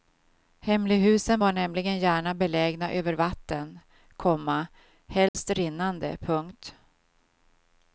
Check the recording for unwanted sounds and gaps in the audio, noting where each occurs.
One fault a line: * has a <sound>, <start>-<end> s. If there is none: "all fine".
* has a dropout, 5.3-5.3 s